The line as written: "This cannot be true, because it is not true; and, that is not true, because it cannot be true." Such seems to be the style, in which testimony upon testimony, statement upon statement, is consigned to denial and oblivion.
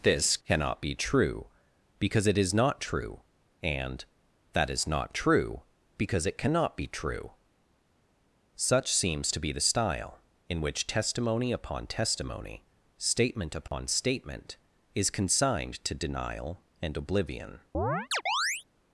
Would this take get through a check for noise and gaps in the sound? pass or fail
fail